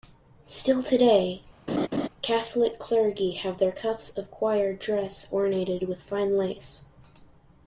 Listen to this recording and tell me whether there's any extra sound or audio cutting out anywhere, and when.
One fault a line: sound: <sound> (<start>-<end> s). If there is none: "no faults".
sound: laugh (1.7-2.1 s)